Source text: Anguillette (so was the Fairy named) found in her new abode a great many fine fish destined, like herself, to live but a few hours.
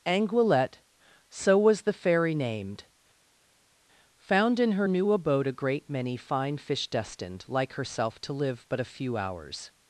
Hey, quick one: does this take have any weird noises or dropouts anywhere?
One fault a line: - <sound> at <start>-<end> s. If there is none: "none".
none